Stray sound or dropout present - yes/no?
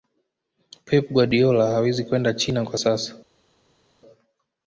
no